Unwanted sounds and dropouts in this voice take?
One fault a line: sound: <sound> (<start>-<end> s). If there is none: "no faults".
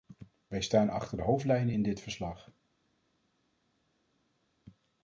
no faults